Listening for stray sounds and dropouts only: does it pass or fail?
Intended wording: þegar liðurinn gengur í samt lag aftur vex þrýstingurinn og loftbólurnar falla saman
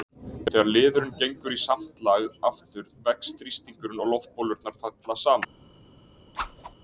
fail